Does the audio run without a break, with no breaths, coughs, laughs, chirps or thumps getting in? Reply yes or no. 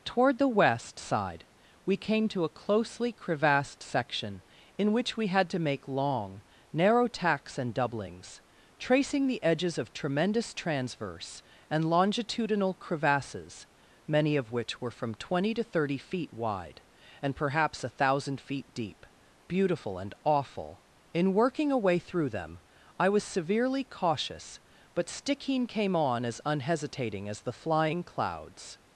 yes